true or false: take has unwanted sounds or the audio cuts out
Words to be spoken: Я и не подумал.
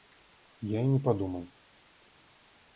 false